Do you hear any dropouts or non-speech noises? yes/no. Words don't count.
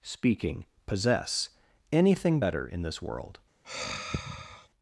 yes